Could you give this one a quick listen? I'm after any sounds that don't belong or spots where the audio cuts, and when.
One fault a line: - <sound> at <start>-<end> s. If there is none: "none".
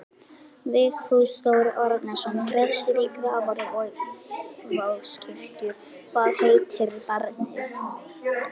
none